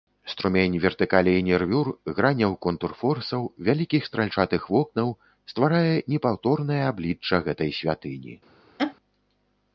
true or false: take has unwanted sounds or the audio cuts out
true